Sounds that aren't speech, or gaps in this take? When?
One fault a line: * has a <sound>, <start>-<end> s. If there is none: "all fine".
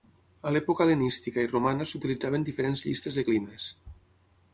all fine